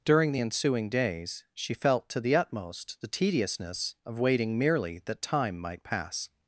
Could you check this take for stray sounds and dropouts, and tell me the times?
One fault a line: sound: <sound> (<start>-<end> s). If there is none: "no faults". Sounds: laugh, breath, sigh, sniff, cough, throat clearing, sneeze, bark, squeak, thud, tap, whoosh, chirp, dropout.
no faults